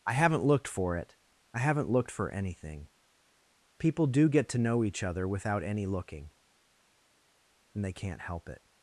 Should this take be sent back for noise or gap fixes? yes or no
no